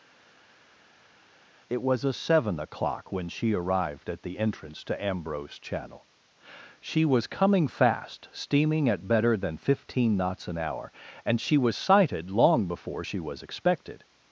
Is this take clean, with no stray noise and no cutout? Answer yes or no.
yes